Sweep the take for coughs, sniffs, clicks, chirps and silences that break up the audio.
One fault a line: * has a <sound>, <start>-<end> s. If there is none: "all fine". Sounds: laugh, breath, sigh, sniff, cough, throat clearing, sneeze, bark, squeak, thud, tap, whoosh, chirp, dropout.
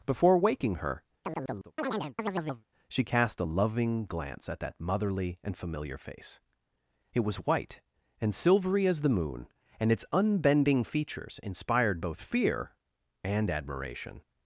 * has a chirp, 1.2-2.6 s